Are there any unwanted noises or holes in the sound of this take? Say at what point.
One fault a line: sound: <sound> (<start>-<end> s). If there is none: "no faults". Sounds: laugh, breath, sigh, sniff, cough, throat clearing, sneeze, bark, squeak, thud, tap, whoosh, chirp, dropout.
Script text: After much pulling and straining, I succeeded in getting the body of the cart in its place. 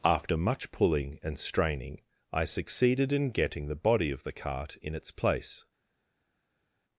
no faults